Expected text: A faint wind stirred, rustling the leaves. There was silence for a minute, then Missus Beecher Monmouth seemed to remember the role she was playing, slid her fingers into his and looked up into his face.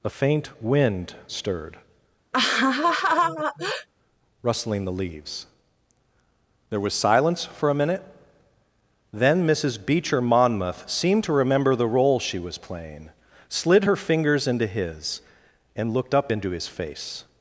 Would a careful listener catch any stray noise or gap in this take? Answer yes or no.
yes